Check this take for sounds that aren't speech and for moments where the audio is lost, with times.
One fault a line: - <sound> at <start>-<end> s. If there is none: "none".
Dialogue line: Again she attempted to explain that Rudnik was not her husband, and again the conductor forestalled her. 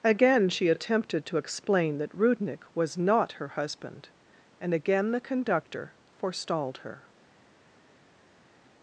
none